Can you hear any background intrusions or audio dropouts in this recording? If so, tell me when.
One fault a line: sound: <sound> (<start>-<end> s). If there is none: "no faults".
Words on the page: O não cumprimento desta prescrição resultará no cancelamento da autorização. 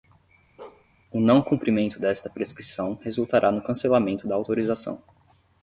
sound: bark (0.6-0.9 s)